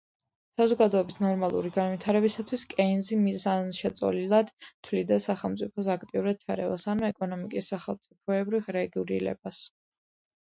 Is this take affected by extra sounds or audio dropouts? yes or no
no